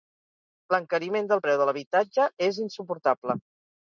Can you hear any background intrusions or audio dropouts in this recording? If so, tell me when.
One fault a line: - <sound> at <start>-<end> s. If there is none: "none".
none